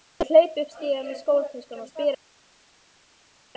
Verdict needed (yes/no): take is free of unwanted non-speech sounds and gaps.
yes